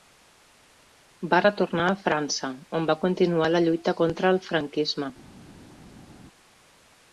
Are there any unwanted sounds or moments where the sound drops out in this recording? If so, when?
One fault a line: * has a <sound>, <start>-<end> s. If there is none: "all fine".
all fine